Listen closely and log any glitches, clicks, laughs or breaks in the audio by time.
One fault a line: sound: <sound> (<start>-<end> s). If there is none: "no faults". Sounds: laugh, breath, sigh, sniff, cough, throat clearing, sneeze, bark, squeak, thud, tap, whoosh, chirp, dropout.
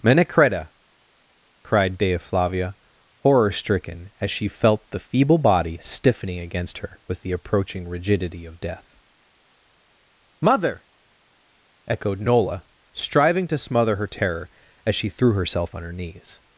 no faults